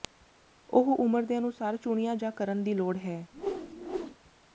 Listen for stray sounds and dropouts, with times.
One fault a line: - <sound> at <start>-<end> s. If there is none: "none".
- whoosh at 3.3-4.2 s